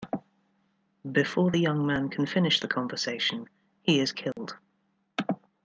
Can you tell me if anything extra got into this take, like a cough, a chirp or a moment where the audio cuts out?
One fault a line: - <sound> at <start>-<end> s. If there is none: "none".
- dropout at 4.3-4.4 s